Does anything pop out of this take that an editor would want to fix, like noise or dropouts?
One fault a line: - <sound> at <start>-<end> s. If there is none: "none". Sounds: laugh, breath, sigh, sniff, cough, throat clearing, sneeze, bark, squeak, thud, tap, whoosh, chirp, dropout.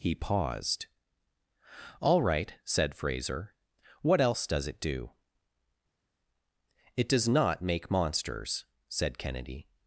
none